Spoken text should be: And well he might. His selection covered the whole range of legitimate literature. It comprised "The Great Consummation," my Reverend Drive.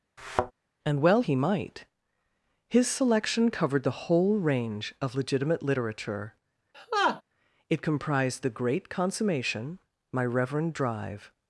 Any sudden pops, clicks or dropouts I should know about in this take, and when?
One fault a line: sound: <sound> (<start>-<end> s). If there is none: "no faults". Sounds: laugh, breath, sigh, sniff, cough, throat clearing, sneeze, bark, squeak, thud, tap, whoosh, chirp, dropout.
sound: thud (0.2-0.5 s)
sound: laugh (6.7-7.2 s)